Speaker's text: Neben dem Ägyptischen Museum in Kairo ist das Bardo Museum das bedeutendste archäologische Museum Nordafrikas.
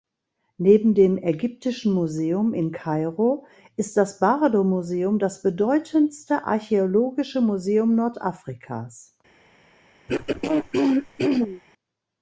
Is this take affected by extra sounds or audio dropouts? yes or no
yes